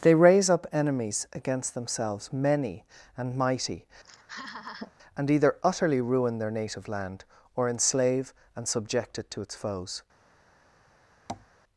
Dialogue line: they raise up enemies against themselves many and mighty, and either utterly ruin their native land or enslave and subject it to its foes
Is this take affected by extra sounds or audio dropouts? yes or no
yes